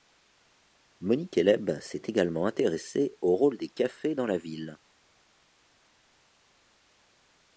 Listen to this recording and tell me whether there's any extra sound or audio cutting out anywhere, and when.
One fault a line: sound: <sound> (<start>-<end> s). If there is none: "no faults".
no faults